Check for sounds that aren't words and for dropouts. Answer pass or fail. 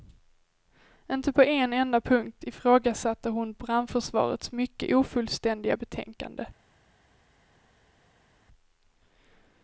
pass